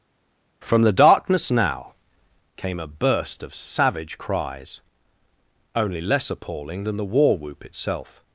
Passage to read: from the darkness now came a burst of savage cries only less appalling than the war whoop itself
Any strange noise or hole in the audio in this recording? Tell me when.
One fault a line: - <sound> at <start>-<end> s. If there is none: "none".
none